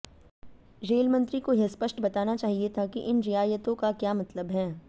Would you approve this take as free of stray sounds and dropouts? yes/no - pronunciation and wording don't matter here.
yes